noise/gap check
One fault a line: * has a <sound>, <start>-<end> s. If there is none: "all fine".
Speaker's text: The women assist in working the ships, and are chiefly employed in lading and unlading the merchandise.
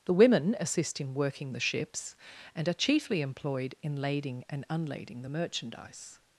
all fine